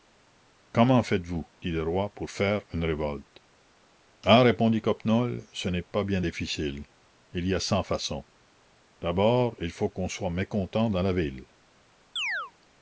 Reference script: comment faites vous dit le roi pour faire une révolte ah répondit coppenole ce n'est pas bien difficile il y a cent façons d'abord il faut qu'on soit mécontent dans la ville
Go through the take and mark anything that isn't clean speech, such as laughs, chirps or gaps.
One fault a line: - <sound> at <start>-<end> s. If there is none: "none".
- chirp at 12.2-12.5 s